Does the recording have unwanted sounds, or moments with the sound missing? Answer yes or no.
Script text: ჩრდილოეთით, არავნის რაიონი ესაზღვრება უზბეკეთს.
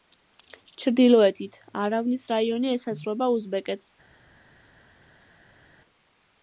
no